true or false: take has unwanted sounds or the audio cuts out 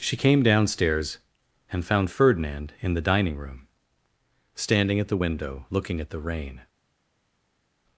false